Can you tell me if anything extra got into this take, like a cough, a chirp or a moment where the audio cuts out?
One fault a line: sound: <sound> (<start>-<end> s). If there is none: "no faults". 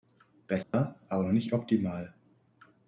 sound: dropout (0.6-0.7 s)